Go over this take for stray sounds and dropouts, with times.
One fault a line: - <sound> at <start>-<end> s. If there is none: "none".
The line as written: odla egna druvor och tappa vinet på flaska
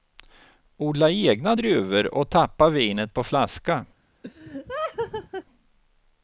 - laugh at 4.2-5.4 s